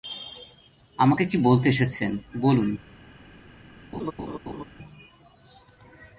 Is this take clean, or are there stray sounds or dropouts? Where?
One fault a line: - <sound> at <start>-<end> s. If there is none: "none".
- laugh at 3.9-4.6 s